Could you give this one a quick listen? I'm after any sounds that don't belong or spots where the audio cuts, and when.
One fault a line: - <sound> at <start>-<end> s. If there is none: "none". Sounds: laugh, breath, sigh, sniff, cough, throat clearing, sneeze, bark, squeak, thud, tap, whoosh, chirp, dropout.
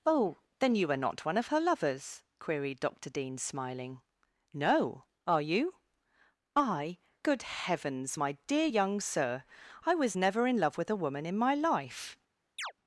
- chirp at 12.6-12.7 s